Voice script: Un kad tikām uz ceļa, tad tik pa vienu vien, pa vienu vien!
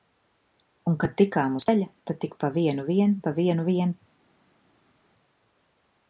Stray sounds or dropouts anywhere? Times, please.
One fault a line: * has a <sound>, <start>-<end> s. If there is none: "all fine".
all fine